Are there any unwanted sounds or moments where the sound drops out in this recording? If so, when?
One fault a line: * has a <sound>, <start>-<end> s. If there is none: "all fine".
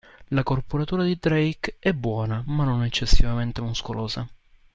all fine